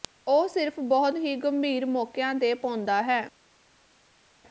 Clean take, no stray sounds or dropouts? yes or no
yes